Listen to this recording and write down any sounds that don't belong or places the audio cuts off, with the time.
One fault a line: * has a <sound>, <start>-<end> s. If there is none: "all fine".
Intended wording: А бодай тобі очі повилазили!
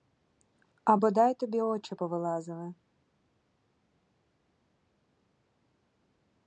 all fine